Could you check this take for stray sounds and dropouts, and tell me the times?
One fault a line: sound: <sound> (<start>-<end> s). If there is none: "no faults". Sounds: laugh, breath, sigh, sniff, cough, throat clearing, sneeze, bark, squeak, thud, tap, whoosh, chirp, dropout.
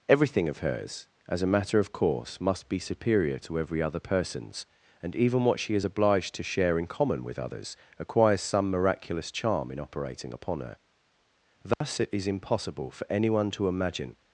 sound: dropout (11.7-11.8 s)